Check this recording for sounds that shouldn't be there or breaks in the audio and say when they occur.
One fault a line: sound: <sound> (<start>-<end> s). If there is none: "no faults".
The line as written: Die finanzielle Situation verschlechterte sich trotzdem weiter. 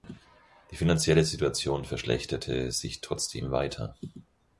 no faults